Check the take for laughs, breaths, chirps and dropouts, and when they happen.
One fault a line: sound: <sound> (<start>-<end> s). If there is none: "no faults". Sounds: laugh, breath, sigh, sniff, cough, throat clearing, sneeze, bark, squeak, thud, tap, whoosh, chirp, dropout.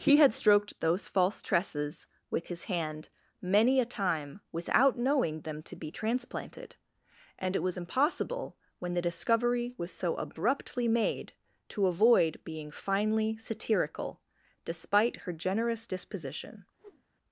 sound: whoosh (16.8-17.0 s)